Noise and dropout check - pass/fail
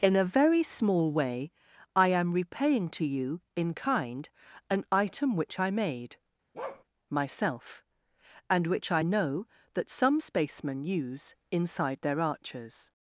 fail